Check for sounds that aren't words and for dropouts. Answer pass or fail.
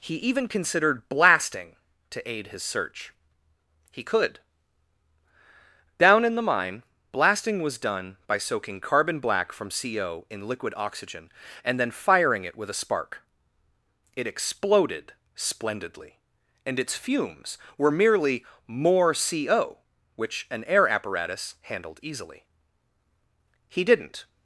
pass